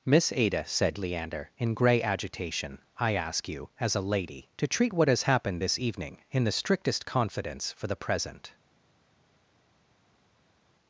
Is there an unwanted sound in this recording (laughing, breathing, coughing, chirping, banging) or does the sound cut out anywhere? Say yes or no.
no